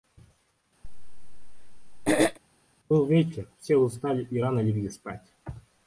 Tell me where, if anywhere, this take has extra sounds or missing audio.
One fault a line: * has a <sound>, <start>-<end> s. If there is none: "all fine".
* has a throat clearing, 0.8-2.4 s